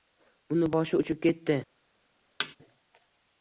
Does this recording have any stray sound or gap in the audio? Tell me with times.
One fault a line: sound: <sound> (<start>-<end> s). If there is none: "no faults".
sound: thud (2.4-2.6 s)